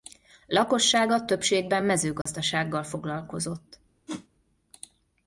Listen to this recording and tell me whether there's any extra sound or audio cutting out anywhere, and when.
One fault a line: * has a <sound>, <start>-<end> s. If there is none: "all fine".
* has a dropout, 2.2-2.3 s
* has a whoosh, 4.1-4.3 s